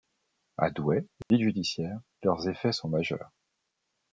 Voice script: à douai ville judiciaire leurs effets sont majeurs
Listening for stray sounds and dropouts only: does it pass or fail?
fail